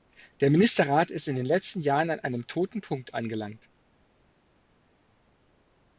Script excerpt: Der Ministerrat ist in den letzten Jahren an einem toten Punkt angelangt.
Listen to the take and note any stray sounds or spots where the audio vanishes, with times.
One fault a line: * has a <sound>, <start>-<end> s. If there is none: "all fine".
all fine